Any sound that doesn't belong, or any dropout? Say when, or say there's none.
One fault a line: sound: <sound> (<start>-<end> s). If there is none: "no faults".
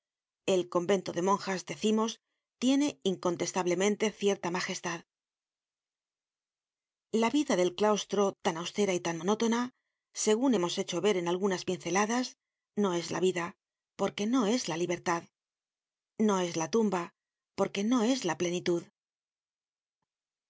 no faults